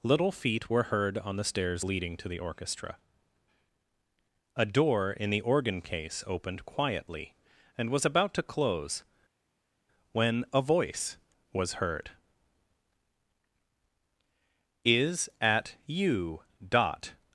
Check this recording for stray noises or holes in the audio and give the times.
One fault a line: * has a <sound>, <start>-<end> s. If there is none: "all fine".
all fine